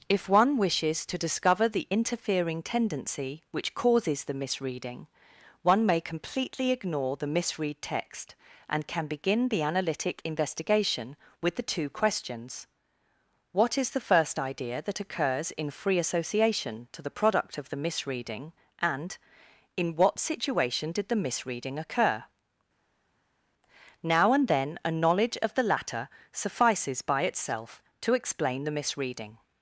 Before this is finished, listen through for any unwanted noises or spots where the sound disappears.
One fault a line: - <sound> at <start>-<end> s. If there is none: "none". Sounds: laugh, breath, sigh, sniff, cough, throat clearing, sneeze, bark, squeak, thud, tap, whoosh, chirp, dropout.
none